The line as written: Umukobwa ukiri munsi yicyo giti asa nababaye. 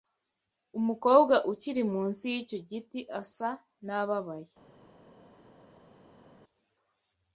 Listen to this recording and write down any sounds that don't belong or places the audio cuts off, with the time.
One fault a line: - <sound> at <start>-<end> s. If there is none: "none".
none